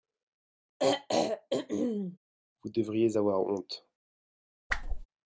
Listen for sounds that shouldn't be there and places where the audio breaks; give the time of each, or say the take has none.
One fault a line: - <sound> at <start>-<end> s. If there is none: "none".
- throat clearing at 0.8-2.2 s
- whoosh at 4.7-5.1 s